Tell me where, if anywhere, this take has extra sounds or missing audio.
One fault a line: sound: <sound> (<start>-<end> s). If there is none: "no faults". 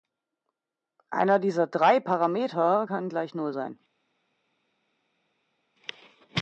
no faults